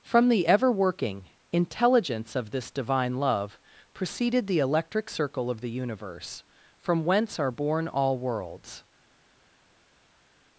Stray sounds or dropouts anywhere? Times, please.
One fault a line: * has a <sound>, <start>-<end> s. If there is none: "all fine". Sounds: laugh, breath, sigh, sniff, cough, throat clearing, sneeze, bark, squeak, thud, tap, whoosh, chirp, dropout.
all fine